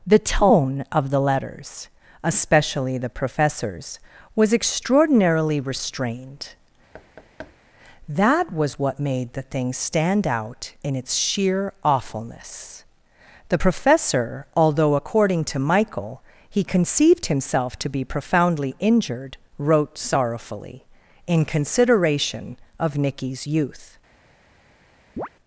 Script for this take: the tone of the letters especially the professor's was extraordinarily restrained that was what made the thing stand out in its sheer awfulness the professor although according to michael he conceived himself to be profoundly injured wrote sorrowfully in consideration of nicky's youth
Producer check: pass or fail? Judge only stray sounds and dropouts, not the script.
fail